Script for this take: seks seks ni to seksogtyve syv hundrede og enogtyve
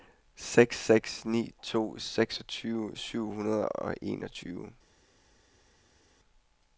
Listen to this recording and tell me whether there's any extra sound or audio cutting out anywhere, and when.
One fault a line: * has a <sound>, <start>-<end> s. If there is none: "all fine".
all fine